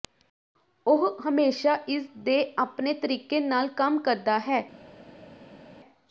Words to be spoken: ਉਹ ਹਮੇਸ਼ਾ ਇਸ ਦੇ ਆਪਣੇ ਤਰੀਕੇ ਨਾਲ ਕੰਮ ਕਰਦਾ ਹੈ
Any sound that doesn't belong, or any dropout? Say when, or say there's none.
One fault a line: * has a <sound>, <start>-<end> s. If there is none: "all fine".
all fine